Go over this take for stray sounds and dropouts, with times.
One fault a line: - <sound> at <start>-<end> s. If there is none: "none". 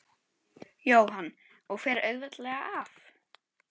none